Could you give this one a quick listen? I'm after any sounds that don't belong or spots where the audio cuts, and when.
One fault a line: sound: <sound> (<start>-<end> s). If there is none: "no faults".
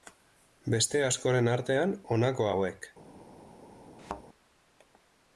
sound: thud (4.0-4.2 s)